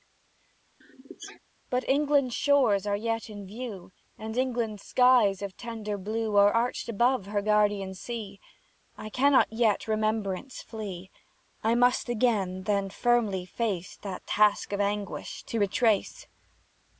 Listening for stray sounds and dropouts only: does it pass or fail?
fail